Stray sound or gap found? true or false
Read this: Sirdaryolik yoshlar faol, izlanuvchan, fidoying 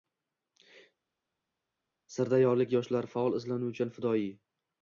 false